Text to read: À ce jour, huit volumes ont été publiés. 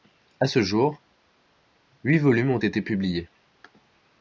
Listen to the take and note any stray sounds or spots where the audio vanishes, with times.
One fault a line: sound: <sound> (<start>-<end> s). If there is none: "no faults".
no faults